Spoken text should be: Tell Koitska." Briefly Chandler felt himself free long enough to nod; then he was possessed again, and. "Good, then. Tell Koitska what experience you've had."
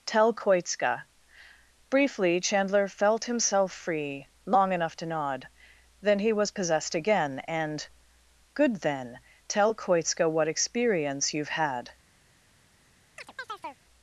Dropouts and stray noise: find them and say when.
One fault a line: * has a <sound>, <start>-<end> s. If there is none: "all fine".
* has a chirp, 13.2-13.8 s